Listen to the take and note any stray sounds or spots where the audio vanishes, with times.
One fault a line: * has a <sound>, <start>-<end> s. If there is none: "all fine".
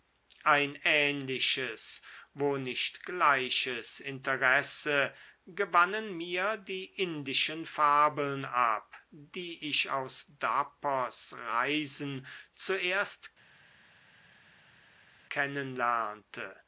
all fine